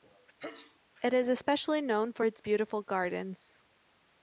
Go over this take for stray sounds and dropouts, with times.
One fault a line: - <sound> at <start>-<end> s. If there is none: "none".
- sneeze at 0.4-0.8 s